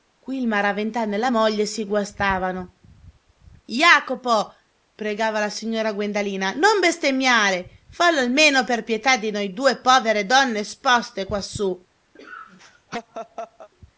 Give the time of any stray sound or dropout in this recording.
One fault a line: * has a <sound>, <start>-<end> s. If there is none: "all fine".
* has a laugh, 12.2-13.7 s